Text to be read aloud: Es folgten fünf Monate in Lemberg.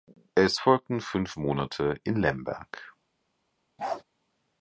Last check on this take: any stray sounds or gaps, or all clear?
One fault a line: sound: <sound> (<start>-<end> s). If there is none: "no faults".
sound: bark (3.8-4.0 s)